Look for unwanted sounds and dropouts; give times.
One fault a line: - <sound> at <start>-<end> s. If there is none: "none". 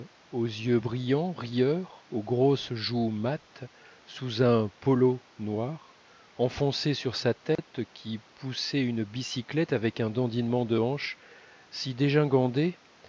- dropout at 7.6-7.6 s